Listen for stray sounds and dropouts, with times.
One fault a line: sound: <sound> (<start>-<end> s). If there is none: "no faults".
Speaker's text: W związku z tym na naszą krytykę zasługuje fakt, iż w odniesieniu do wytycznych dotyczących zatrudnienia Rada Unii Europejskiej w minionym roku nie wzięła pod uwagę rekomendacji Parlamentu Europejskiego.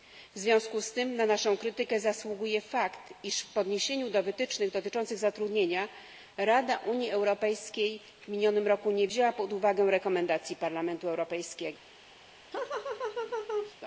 sound: laugh (12.5-13.8 s)